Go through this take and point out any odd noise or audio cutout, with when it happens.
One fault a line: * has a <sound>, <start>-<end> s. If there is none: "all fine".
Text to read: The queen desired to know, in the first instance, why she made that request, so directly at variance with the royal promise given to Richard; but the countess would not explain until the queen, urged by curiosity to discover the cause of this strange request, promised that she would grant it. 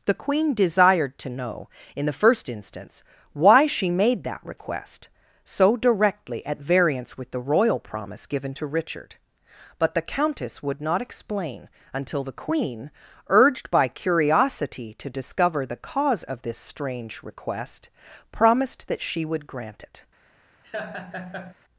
* has a laugh, 20.6-21.5 s